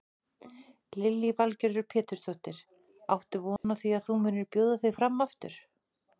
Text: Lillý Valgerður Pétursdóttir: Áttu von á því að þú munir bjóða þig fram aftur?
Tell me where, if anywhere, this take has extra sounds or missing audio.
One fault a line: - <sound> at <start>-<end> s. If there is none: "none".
- dropout at 3.6-3.6 s